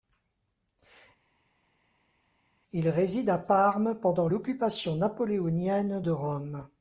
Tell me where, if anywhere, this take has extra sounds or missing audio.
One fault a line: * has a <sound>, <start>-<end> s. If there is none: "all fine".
all fine